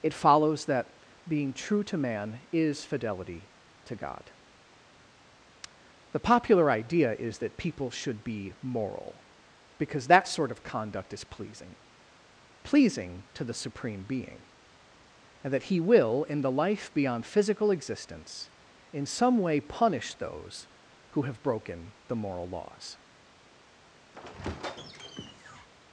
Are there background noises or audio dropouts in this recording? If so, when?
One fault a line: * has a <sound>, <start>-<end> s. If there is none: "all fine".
* has a squeak, 24.1-25.7 s